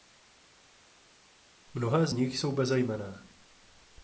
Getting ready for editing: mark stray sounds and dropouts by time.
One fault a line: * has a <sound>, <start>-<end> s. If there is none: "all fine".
all fine